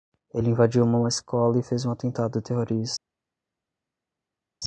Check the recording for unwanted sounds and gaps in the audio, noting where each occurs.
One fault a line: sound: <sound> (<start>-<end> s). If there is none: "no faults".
no faults